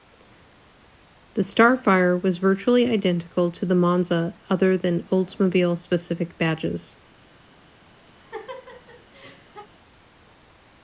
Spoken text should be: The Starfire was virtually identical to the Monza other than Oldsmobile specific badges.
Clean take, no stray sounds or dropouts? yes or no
no